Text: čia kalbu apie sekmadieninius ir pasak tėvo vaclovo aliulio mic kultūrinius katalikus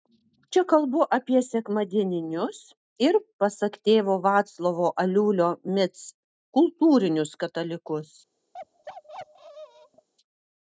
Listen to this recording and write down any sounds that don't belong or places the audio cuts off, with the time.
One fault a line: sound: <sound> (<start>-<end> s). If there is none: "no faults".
sound: bark (8.5-10.1 s)